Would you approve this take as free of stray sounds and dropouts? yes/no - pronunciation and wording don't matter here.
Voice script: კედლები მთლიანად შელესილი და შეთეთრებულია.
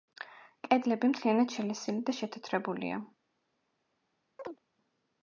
no